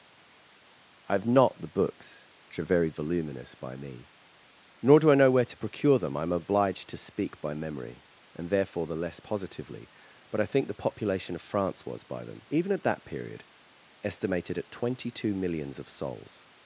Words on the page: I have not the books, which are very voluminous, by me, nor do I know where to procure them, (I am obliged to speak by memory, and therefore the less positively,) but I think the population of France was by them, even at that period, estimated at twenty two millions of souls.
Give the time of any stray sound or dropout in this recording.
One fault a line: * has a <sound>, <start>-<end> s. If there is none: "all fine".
all fine